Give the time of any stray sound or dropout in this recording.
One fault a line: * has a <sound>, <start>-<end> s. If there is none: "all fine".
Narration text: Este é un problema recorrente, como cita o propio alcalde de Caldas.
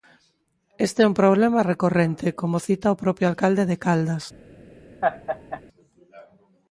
* has a laugh, 5.0-5.6 s